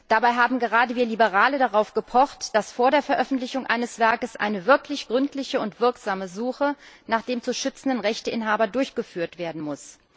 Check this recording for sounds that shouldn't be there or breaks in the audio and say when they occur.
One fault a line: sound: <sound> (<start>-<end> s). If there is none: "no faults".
no faults